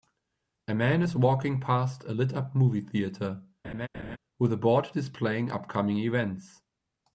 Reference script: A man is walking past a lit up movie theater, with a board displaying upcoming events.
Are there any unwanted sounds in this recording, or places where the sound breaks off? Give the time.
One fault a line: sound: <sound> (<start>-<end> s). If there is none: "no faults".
sound: laugh (3.6-4.2 s)